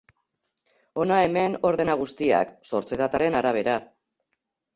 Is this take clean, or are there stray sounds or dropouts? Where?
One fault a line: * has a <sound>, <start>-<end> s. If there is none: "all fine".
all fine